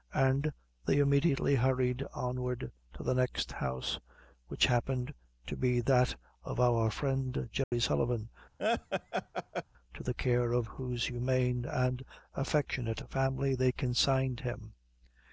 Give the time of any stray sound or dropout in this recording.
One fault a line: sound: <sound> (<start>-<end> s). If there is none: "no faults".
sound: dropout (7.6-7.7 s)
sound: laugh (8.6-9.6 s)